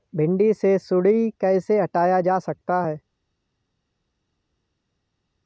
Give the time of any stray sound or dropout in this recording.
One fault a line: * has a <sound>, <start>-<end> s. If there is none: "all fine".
all fine